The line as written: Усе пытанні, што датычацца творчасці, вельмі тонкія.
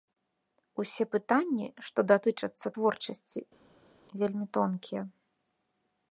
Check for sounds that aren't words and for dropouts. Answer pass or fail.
pass